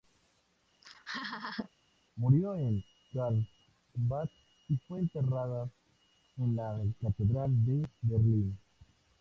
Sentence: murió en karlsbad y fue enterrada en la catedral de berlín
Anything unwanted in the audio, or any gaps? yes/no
yes